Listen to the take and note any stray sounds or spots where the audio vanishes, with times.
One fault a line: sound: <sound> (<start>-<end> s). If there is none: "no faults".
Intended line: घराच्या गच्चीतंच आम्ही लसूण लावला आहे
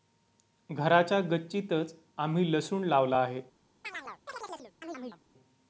sound: chirp (3.8-5.2 s)